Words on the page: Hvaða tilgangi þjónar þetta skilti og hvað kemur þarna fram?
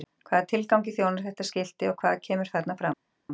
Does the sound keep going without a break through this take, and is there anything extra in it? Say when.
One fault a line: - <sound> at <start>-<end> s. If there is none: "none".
none